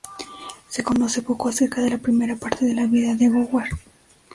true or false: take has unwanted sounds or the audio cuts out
false